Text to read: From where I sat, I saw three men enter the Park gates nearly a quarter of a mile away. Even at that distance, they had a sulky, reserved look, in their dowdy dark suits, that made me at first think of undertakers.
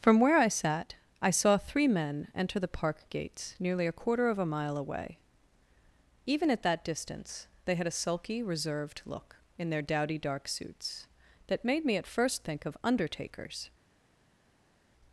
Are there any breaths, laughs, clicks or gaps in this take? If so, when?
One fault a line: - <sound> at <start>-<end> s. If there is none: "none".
none